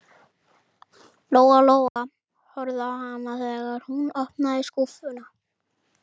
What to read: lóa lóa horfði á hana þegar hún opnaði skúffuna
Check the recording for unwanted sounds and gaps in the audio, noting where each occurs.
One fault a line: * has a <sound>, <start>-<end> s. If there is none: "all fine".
* has a dropout, 1.9-2.0 s